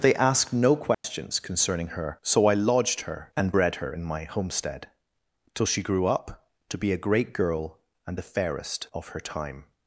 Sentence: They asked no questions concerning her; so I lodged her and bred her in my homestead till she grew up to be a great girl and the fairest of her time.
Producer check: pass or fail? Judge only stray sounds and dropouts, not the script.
fail